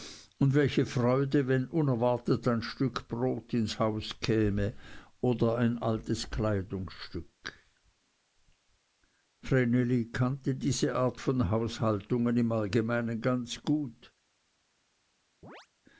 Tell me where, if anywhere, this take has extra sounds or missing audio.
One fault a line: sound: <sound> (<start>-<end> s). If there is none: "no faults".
sound: chirp (15.4-15.7 s)